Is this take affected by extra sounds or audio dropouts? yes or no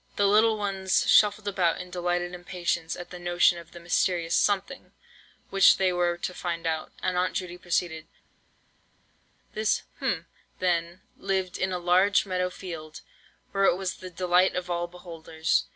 no